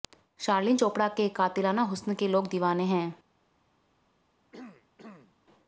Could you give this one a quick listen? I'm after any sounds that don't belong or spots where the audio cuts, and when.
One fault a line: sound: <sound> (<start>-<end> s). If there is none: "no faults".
sound: throat clearing (4.5-5.4 s)